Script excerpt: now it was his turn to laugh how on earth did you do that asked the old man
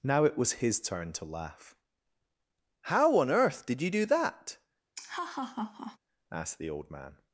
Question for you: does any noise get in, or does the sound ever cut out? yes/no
yes